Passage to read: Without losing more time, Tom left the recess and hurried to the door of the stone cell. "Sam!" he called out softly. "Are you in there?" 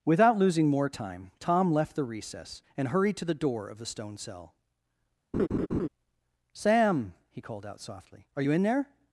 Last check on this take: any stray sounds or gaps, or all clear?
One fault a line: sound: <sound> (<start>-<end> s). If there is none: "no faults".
sound: laugh (5.3-5.9 s)